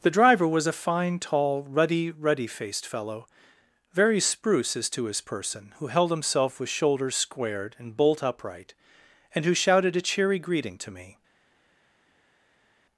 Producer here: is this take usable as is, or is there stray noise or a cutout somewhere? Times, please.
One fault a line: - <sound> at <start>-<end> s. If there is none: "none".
none